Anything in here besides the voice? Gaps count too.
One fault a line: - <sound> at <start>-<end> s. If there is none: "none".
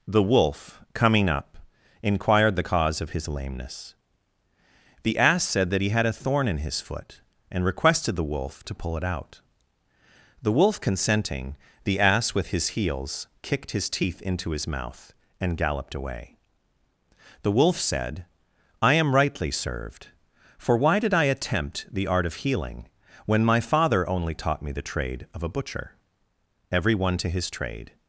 none